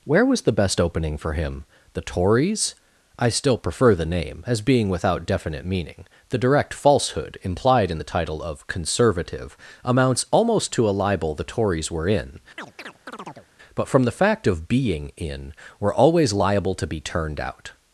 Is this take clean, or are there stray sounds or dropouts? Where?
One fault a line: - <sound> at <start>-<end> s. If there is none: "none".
- chirp at 12.6-13.5 s